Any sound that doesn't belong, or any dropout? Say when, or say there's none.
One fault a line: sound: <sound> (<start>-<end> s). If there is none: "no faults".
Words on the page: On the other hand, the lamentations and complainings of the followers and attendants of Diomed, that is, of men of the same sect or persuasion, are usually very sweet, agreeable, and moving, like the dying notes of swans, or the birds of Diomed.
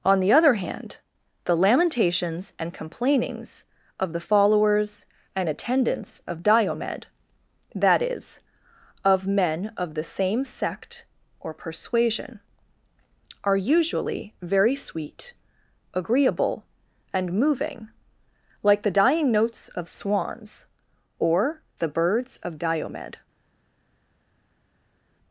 no faults